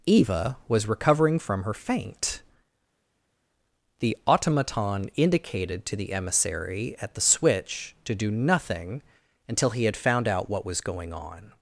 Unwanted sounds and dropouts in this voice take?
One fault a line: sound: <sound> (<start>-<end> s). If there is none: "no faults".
no faults